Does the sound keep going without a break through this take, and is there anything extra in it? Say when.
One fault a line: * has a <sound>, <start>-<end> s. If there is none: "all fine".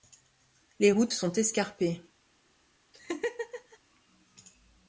* has a laugh, 2.9-3.8 s